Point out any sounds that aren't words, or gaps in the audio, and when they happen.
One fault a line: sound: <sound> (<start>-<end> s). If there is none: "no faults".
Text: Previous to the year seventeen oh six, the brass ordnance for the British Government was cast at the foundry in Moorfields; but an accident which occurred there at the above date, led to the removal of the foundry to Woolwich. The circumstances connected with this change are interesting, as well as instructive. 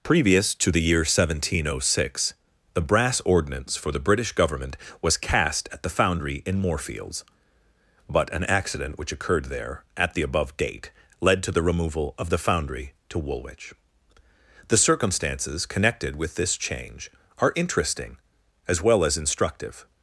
no faults